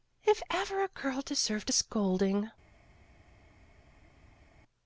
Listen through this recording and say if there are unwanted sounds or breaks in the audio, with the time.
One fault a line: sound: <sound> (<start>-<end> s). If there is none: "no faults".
no faults